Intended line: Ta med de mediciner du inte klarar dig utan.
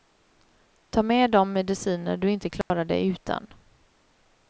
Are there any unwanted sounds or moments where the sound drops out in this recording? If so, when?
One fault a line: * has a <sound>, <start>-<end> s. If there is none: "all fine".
* has a dropout, 2.6-2.7 s